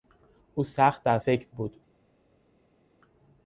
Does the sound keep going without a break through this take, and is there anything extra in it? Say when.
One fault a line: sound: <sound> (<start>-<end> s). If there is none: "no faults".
no faults